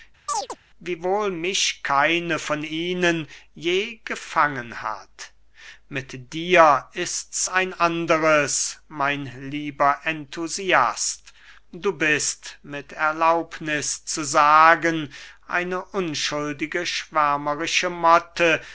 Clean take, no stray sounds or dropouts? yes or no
no